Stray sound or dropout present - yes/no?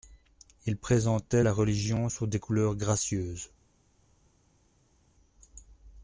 no